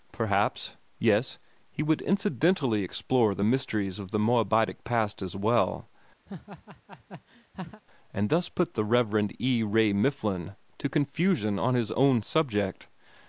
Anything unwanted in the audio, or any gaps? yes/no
yes